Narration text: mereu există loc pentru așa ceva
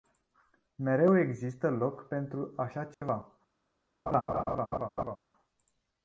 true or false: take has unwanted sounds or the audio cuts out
true